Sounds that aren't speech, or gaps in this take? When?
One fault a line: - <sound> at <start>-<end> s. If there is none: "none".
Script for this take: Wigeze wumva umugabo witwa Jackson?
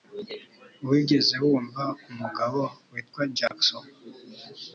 - dropout at 3.5-3.5 s